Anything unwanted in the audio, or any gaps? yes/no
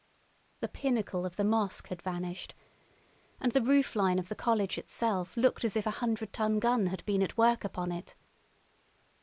no